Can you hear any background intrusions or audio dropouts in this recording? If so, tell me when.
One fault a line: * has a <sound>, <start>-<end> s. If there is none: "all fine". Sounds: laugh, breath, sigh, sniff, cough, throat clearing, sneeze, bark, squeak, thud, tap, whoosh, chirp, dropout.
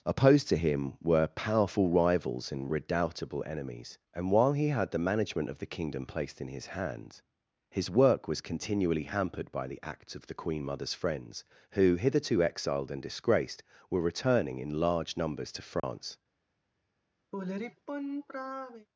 * has a dropout, 15.8-15.8 s
* has a sigh, 17.3-18.9 s